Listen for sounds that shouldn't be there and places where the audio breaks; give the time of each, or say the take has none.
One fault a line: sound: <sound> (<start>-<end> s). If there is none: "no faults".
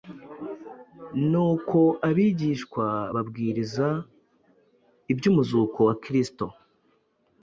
no faults